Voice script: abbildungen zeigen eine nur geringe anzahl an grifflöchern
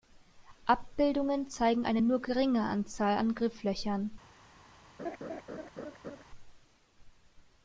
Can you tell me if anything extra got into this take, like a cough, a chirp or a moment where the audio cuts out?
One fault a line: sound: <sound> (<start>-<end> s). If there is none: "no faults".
sound: laugh (5.0-6.2 s)